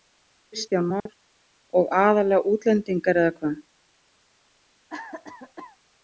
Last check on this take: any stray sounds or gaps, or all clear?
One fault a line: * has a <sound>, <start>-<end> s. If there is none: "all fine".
* has a dropout, 1.0-1.1 s
* has a cough, 4.9-5.8 s